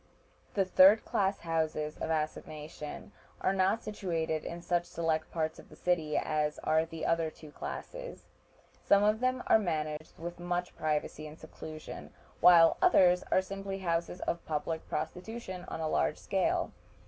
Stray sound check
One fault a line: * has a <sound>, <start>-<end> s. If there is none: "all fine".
* has a dropout, 10.0-10.0 s